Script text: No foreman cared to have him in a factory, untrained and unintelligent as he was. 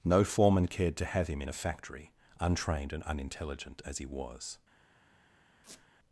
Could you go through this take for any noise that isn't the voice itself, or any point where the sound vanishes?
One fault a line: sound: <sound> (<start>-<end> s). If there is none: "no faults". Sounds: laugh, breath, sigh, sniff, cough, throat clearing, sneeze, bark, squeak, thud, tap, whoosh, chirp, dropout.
sound: squeak (5.6-5.9 s)